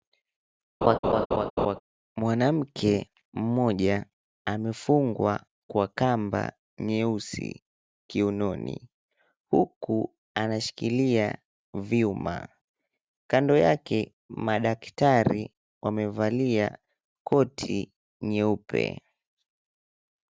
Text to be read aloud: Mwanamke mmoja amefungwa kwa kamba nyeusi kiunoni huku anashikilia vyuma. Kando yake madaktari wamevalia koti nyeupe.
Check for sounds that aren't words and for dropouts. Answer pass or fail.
fail